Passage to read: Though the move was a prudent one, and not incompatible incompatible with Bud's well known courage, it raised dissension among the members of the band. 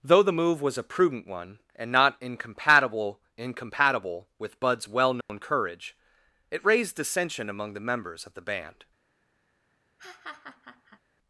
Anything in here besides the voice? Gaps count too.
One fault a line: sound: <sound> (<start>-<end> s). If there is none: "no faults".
sound: dropout (5.2-5.3 s)
sound: laugh (10.0-11.0 s)